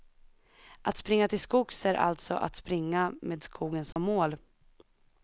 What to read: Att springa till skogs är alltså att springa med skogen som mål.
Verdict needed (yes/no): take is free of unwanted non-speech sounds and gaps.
no